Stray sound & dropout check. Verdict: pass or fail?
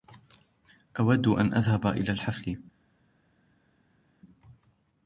pass